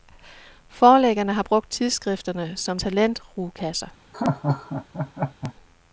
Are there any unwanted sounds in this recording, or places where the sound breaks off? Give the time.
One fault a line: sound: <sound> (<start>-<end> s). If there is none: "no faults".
sound: laugh (4.1-5.5 s)